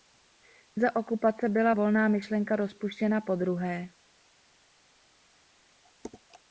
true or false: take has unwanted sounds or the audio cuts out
false